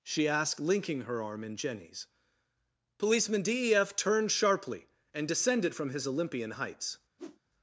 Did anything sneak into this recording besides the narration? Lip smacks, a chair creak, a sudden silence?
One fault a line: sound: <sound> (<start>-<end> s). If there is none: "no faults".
sound: whoosh (7.2-7.4 s)